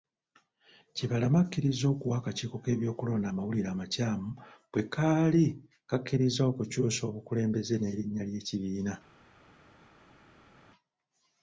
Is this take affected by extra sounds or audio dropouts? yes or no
no